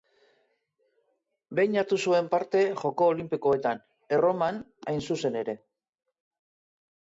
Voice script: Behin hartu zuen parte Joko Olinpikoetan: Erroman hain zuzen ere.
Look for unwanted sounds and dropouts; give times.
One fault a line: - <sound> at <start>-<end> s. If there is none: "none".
none